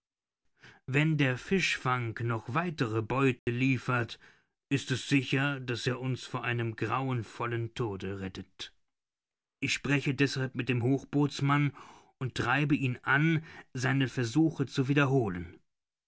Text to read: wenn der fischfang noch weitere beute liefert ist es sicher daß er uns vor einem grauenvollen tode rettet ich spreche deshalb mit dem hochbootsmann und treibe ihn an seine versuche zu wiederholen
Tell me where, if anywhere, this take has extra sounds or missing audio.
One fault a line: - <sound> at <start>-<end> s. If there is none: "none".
- dropout at 3.4-3.5 s